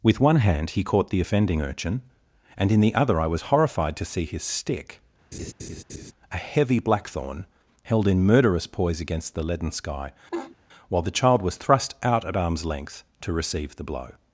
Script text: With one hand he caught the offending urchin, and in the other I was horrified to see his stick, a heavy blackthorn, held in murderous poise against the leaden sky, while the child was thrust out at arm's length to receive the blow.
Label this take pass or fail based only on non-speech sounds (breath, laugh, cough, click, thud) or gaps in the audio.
fail